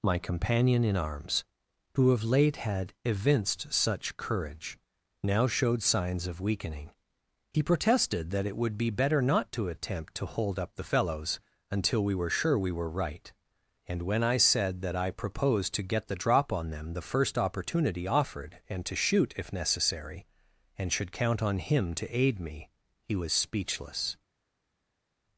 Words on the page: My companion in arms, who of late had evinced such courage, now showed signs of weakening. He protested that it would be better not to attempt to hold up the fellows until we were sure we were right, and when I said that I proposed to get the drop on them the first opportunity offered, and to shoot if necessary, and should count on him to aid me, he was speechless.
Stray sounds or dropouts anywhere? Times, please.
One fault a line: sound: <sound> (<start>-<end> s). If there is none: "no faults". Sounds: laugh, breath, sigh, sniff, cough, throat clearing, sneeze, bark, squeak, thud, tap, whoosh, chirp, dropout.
no faults